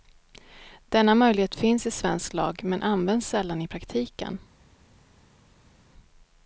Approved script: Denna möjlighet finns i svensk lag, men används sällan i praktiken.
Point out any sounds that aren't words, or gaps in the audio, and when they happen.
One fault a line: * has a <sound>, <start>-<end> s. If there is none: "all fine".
all fine